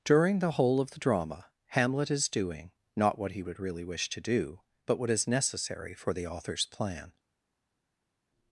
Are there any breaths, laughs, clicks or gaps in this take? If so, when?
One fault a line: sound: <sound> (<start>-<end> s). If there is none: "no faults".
no faults